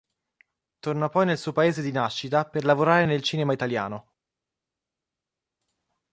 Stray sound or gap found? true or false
false